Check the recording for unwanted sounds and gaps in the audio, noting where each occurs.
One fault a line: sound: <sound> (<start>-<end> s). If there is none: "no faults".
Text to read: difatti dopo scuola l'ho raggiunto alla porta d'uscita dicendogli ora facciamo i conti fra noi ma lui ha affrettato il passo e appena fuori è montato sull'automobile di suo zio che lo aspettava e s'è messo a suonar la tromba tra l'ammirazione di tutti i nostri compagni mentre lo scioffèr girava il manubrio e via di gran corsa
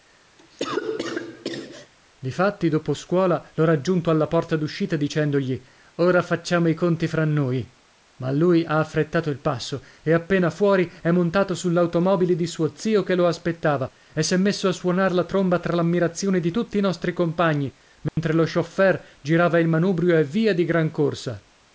sound: cough (0.4-1.9 s)
sound: dropout (18.1-18.2 s)